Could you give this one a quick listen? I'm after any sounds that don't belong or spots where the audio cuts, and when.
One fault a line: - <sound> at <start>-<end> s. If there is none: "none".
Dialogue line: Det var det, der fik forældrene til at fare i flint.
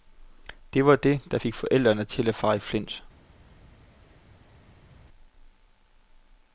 none